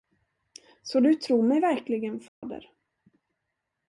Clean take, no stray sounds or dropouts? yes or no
no